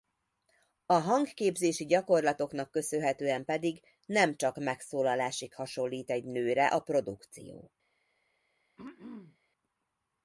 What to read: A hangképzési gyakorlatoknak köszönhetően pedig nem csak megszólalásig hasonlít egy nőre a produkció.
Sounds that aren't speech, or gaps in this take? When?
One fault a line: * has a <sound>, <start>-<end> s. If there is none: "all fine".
* has a throat clearing, 8.8-9.4 s